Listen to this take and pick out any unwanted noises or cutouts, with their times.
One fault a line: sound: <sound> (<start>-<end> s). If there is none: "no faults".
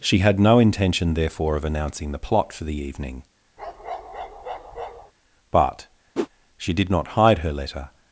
sound: bark (3.6-5.1 s)
sound: whoosh (6.1-6.3 s)